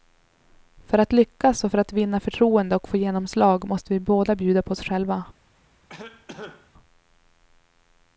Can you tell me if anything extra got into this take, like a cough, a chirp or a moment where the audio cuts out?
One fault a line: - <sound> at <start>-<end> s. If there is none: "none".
- cough at 5.9-6.7 s